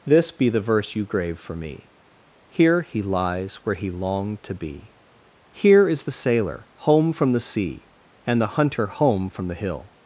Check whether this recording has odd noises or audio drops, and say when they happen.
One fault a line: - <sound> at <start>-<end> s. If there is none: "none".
none